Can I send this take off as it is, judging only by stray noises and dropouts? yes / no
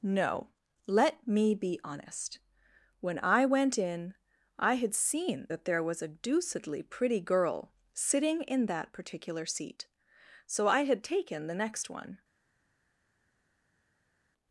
yes